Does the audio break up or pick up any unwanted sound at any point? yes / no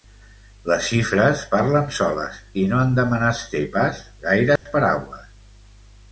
yes